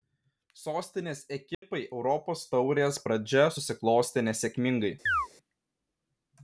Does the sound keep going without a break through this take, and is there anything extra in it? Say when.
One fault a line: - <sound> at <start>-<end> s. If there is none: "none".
- dropout at 1.5-1.6 s
- chirp at 5.1-5.3 s